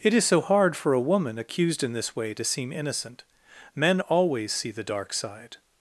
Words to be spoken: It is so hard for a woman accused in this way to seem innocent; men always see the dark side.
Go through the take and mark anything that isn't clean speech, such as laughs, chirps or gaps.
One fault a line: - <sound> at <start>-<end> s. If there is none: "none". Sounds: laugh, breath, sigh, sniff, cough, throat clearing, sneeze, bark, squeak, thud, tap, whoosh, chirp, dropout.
none